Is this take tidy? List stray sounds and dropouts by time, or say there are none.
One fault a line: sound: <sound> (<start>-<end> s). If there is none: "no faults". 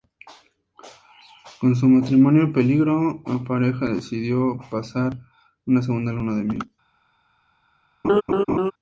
sound: laugh (8.0-8.7 s)